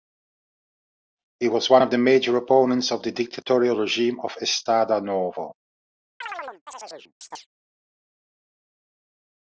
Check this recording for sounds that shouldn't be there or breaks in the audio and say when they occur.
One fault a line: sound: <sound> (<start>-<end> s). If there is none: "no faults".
sound: chirp (6.2-7.5 s)